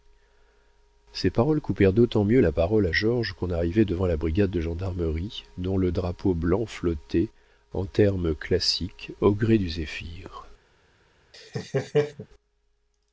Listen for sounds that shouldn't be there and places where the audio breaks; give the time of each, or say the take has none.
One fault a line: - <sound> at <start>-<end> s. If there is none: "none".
- laugh at 11.3-12.3 s